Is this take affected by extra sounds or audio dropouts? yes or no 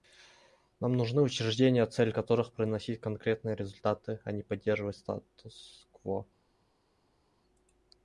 no